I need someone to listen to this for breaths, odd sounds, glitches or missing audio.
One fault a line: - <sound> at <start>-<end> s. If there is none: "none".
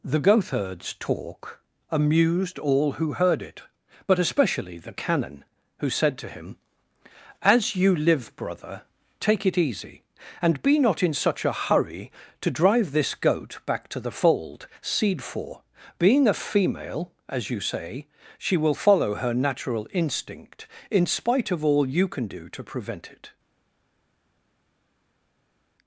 none